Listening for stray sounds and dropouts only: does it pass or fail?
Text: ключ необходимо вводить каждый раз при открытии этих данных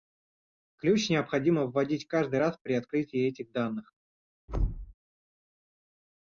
fail